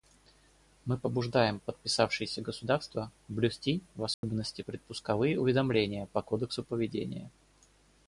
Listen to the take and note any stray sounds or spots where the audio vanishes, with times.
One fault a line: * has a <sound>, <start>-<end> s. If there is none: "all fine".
* has a dropout, 4.1-4.2 s